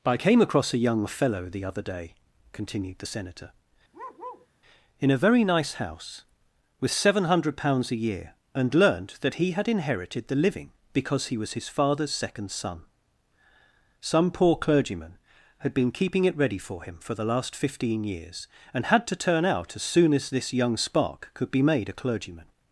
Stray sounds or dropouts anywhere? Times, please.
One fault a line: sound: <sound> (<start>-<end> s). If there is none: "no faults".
sound: bark (3.9-4.5 s)